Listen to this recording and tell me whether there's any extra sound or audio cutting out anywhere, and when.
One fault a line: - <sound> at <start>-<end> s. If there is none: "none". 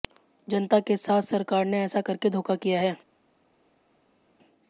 none